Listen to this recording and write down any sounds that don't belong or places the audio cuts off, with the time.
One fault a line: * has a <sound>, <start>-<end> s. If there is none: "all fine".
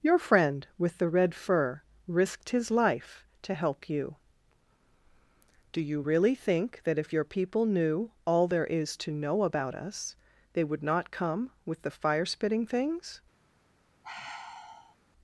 * has a sigh, 14.0-15.0 s